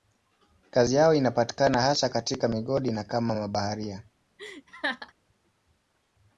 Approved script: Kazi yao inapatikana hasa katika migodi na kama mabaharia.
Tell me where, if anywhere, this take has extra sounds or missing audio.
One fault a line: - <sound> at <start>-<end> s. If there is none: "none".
- laugh at 4.4-5.1 s